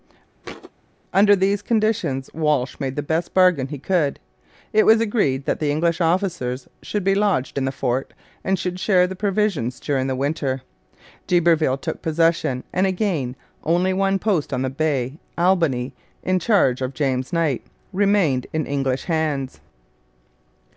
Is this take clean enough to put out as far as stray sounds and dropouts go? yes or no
no